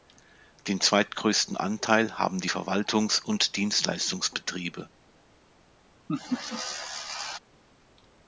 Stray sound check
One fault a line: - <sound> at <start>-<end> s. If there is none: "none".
- laugh at 6.1-7.4 s